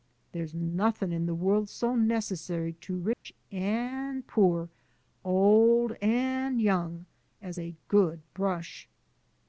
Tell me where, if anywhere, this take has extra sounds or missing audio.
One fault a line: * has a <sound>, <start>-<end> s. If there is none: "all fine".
* has a dropout, 3.1-3.3 s